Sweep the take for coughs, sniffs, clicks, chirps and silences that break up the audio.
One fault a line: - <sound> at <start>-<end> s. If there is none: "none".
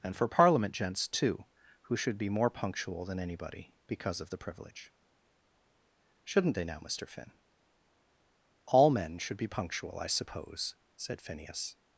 none